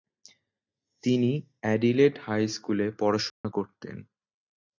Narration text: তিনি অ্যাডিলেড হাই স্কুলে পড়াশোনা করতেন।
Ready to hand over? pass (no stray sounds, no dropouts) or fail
fail